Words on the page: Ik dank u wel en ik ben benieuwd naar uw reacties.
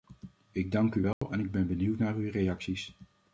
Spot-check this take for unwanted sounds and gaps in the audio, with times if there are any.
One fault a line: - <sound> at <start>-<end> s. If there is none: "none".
- dropout at 1.1-1.2 s